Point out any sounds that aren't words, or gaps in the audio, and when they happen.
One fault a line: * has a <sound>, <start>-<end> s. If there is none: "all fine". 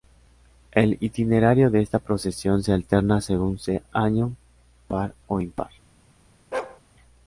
* has a bark, 6.5-6.8 s